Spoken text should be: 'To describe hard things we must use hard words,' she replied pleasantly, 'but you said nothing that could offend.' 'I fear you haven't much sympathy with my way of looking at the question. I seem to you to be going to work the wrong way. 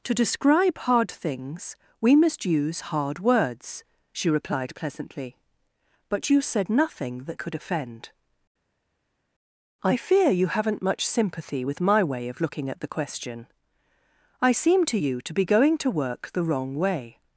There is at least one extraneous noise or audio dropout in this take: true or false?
false